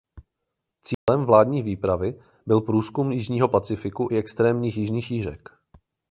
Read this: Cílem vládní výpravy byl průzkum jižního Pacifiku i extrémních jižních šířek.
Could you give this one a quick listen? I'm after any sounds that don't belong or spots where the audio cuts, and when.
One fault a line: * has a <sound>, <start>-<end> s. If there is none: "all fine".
* has a dropout, 0.9-1.1 s